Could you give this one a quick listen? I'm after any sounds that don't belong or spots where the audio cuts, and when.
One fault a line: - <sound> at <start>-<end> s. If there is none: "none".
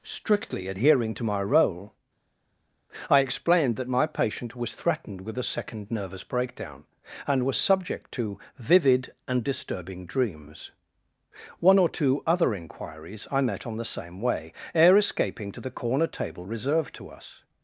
none